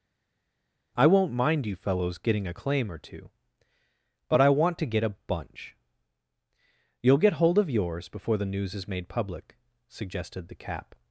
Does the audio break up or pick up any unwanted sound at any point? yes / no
no